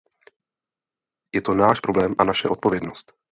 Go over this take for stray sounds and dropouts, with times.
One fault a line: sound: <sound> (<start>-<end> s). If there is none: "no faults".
no faults